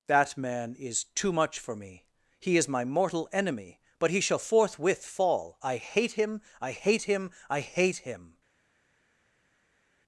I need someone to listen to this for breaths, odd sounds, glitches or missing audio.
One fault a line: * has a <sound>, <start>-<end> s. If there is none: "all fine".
all fine